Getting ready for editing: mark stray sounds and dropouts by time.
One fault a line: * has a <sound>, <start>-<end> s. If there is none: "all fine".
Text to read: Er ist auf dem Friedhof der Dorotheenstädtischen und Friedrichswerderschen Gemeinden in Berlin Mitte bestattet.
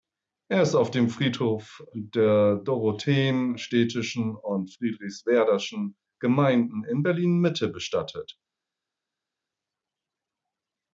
all fine